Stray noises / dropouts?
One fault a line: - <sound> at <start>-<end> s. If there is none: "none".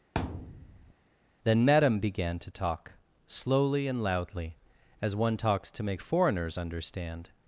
- thud at 0.1-0.9 s